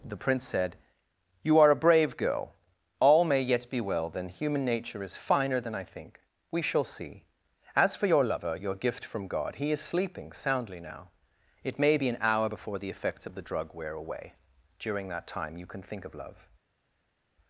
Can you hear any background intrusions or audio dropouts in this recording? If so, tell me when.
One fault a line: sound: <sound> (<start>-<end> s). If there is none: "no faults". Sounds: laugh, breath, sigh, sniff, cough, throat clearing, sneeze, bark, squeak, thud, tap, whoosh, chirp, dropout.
no faults